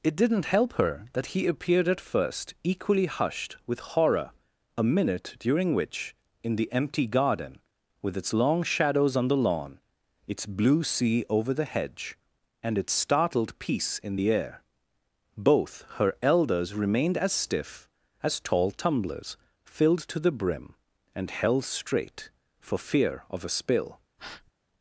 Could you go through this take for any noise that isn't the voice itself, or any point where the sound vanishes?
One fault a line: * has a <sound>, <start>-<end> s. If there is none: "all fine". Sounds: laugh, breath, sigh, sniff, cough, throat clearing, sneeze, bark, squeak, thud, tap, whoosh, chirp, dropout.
* has a breath, 24.2-24.5 s